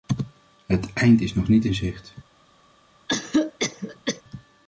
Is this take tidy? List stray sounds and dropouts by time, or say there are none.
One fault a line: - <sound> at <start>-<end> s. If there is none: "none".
- cough at 3.1-4.2 s